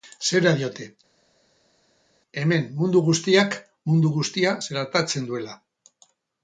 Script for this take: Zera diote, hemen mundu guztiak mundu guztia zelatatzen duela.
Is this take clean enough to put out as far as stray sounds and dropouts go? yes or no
yes